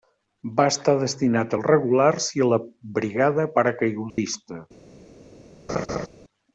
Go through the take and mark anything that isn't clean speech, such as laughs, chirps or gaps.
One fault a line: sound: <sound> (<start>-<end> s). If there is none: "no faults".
sound: dropout (4.1-4.2 s)
sound: laugh (5.7-6.1 s)